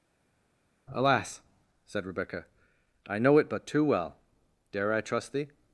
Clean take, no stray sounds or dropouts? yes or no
yes